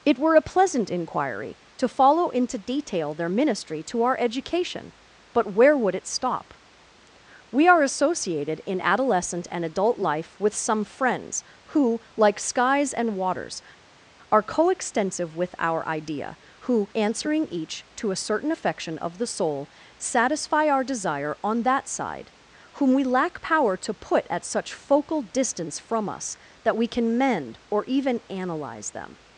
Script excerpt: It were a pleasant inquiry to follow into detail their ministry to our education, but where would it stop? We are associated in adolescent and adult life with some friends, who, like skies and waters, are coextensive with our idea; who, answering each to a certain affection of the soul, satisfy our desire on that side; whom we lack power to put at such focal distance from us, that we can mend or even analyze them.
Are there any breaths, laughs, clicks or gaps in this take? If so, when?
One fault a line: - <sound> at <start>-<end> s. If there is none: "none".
none